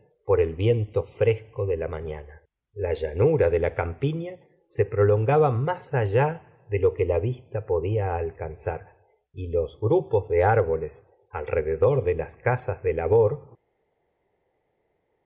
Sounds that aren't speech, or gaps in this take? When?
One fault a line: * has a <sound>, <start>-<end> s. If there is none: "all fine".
all fine